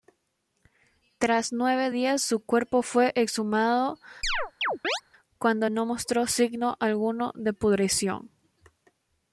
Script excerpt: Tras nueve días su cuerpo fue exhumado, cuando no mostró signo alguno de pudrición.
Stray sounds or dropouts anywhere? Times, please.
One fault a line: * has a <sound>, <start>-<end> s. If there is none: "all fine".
* has a chirp, 4.2-5.0 s